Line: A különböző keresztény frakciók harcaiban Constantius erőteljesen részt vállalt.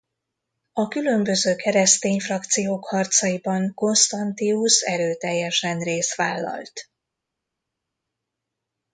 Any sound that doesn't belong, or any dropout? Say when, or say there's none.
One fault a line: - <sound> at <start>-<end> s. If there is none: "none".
none